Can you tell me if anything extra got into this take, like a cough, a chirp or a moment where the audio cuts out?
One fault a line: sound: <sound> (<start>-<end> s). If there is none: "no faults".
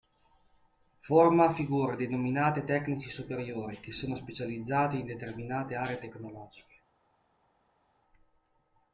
no faults